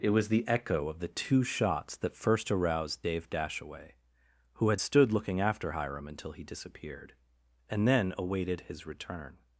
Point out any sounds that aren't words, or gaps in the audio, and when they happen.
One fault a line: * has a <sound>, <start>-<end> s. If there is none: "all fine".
all fine